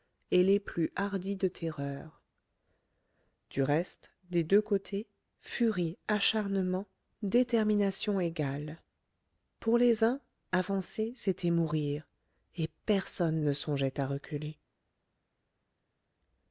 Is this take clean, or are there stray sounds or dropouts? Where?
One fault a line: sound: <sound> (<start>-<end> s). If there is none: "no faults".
no faults